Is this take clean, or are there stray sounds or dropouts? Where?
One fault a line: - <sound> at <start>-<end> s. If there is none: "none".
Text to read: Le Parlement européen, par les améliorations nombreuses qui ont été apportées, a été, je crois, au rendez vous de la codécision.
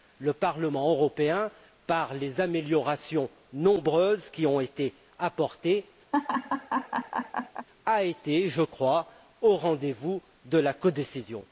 - laugh at 6.1-7.7 s